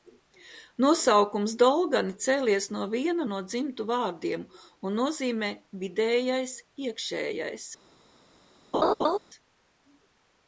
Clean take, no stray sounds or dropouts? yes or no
no